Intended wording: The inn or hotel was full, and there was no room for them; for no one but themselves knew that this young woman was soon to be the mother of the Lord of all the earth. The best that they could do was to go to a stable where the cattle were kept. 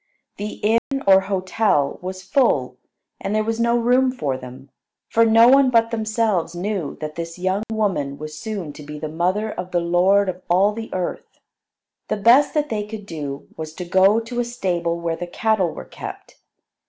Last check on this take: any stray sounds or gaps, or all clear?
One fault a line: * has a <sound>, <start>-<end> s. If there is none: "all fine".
* has a dropout, 0.8-0.9 s
* has a dropout, 7.6-7.7 s